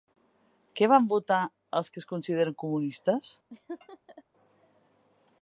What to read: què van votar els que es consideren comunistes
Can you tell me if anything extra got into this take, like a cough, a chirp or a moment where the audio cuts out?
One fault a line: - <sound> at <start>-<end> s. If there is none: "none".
- laugh at 3.5-4.2 s